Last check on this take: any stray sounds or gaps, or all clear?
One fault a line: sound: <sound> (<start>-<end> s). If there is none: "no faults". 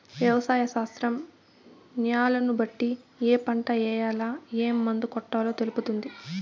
no faults